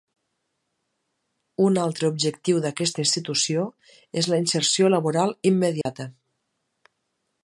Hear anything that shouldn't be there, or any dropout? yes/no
yes